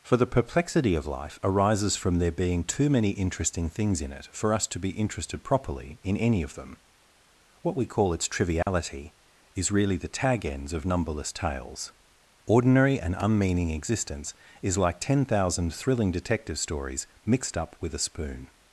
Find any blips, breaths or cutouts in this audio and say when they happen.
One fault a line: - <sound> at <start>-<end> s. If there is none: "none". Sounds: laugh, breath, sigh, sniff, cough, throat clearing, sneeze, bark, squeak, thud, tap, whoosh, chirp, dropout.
- dropout at 8.6-8.7 s